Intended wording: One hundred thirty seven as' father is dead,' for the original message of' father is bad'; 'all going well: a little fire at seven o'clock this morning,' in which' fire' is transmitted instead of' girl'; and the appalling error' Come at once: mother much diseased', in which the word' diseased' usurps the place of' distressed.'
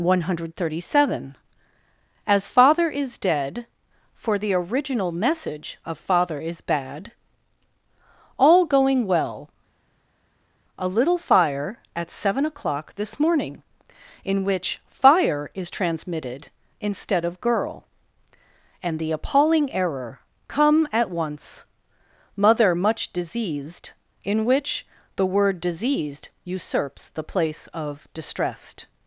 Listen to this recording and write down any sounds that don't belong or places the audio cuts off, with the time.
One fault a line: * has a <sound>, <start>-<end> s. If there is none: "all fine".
all fine